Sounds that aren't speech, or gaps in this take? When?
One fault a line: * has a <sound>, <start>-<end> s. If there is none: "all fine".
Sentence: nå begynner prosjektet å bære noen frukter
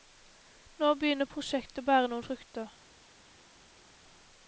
all fine